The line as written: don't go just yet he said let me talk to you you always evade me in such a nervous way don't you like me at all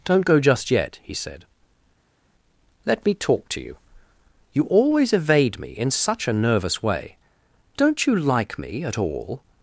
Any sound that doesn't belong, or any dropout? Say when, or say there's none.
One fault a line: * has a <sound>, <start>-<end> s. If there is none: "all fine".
all fine